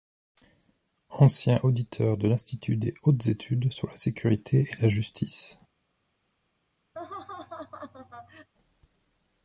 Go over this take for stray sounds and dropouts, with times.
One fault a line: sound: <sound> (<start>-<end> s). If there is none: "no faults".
sound: laugh (6.9-8.5 s)